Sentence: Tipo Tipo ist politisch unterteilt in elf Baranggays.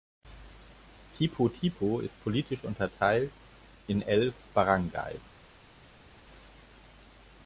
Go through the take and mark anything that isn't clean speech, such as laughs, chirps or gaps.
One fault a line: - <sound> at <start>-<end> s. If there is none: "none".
none